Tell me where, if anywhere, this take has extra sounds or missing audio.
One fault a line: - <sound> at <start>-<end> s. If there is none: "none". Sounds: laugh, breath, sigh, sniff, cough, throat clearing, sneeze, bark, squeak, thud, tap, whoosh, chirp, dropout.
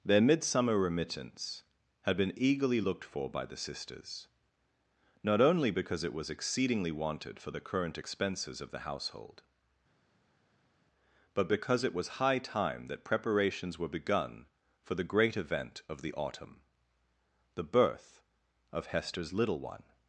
none